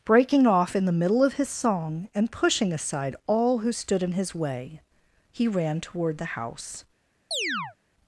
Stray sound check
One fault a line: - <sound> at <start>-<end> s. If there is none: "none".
- chirp at 7.3-7.8 s